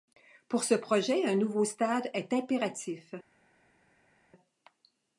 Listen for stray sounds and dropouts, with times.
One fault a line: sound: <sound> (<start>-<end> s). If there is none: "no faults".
no faults